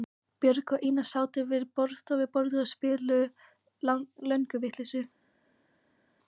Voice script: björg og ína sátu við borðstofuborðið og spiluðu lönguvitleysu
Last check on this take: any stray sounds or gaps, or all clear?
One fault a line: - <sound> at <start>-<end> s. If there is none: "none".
none